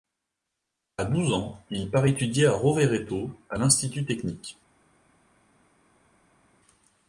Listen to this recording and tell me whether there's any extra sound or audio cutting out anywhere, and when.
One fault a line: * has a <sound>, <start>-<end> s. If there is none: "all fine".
all fine